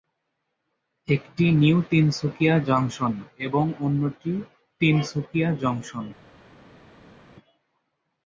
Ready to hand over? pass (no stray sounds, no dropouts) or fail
pass